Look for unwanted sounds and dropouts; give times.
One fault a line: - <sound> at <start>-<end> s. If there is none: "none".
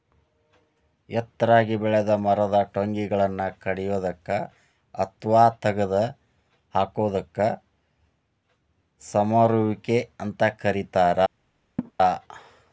- laugh at 11.8-11.9 s